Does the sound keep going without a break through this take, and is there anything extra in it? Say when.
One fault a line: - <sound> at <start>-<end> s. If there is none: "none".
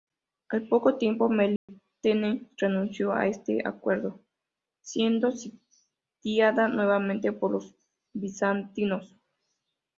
- dropout at 1.6-1.7 s